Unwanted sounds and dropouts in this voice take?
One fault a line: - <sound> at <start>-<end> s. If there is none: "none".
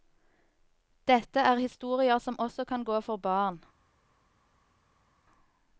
none